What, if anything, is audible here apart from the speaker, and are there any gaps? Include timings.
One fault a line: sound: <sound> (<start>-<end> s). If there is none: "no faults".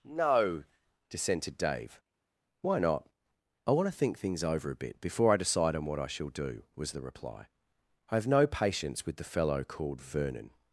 no faults